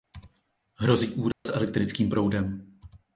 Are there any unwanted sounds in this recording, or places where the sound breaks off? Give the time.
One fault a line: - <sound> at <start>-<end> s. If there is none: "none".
- dropout at 1.3-1.5 s